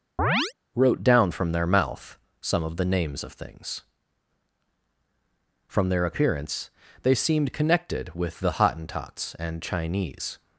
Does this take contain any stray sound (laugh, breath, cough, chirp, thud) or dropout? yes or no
yes